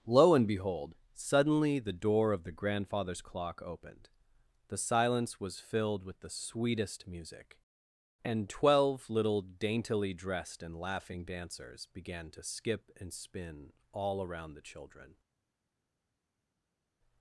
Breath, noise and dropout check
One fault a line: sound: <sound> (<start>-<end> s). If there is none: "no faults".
no faults